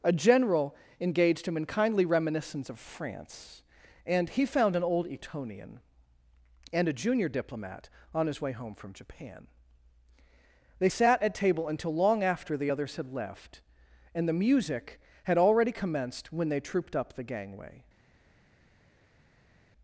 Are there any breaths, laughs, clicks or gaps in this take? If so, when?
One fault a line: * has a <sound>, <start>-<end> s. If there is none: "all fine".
all fine